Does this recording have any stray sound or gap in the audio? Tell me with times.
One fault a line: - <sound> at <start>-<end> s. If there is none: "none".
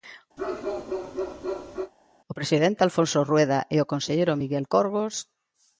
- bark at 0.4-1.9 s